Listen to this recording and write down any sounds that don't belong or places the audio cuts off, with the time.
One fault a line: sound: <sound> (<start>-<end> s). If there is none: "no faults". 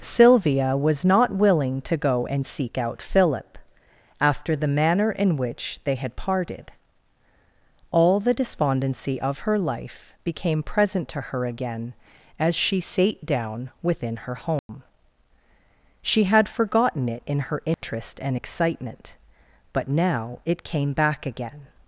sound: dropout (14.6-14.7 s)
sound: dropout (17.7-17.8 s)